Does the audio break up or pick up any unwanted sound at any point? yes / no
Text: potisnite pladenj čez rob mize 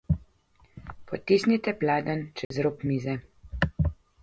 yes